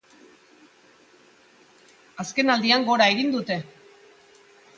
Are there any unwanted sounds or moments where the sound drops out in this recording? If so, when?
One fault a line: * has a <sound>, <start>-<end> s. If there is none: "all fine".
all fine